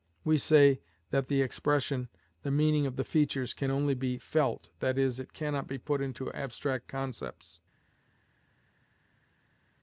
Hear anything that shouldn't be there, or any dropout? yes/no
no